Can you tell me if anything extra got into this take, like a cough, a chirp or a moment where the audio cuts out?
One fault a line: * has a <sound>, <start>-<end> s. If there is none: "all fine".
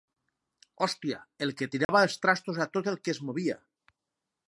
* has a dropout, 1.8-1.9 s